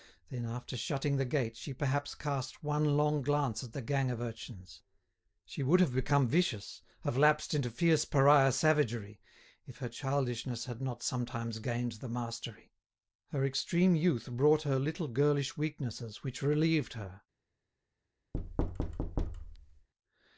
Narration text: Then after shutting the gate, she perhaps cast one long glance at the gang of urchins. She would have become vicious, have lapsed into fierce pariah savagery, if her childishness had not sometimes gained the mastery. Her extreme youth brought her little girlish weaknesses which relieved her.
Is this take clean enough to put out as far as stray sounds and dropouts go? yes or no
no